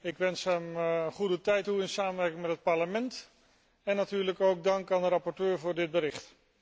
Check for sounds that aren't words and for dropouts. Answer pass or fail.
pass